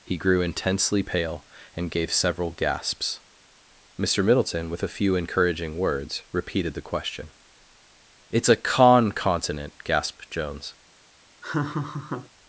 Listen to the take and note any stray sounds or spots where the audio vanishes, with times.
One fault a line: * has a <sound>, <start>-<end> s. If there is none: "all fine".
* has a laugh, 11.4-12.3 s